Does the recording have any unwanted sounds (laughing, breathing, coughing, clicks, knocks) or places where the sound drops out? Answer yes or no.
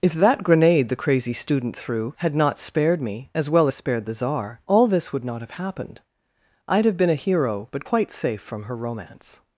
no